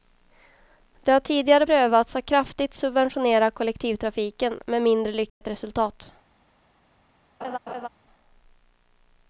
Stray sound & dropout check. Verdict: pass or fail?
fail